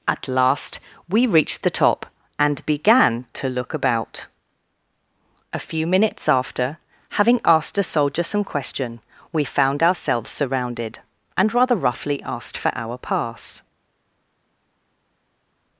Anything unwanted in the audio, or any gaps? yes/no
no